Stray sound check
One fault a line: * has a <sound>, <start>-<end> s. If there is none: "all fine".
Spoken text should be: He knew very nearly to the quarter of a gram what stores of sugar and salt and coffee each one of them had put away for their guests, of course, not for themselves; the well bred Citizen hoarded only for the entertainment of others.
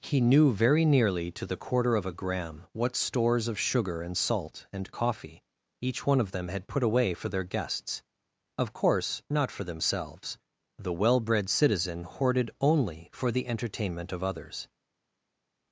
all fine